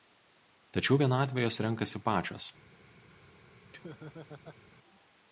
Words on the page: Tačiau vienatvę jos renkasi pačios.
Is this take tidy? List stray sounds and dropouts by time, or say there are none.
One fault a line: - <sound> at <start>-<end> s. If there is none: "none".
- laugh at 3.7-4.6 s